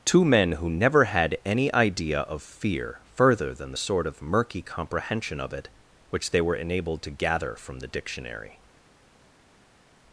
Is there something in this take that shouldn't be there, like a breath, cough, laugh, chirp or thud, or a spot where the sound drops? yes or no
no